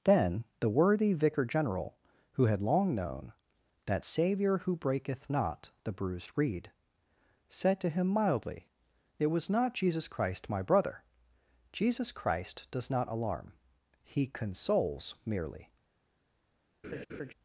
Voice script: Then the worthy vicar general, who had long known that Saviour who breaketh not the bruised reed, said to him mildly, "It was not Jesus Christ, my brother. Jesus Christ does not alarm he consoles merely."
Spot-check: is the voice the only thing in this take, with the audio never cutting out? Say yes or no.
no